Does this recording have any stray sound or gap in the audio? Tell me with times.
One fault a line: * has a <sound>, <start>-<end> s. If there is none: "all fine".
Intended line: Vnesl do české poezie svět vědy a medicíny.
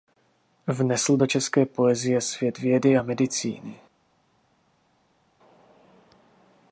all fine